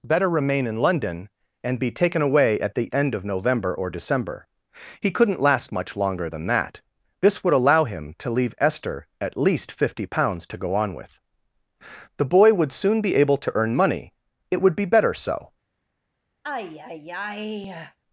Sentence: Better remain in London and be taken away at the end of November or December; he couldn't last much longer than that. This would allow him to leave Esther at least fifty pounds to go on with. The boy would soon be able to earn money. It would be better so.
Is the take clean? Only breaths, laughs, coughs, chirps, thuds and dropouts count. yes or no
no